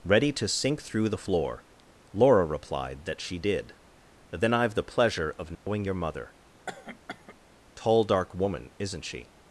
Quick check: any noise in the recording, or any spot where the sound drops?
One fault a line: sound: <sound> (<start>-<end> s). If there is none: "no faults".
sound: dropout (5.5-5.7 s)
sound: cough (6.7-7.4 s)